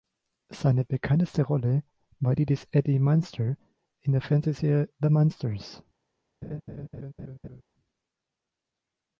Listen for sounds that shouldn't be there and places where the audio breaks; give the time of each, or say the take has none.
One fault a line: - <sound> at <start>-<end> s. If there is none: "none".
- laugh at 6.4-7.6 s